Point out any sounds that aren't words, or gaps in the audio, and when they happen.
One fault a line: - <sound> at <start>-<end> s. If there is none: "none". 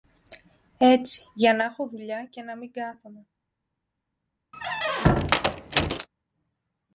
- squeak at 4.5-6.1 s